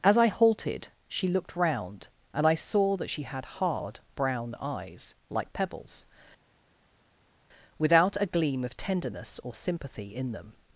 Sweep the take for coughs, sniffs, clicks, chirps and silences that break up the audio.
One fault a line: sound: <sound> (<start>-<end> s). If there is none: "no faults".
no faults